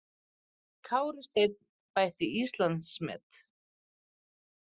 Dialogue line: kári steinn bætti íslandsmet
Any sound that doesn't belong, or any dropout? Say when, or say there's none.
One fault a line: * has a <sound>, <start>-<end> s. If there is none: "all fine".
all fine